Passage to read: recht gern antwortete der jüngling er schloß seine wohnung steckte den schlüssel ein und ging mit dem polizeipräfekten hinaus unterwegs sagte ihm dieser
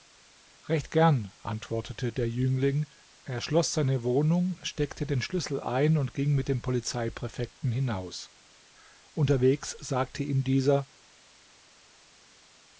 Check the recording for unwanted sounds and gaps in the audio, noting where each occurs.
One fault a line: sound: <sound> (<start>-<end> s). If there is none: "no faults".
no faults